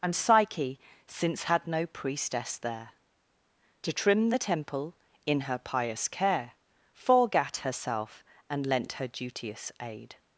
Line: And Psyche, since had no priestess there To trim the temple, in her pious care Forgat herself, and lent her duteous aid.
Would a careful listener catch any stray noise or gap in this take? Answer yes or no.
no